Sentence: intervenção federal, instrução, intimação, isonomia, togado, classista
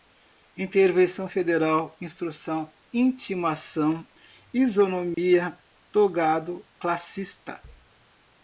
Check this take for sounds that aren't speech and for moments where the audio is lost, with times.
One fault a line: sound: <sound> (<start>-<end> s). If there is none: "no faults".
sound: dropout (5.1-5.2 s)